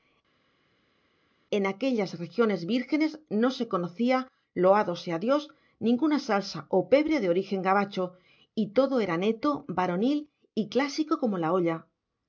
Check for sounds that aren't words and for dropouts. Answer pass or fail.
pass